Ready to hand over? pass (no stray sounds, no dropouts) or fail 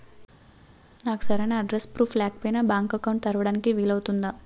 pass